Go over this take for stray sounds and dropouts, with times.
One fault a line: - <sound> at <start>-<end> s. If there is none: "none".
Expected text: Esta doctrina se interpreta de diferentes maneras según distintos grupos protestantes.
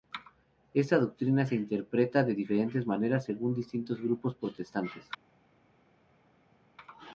none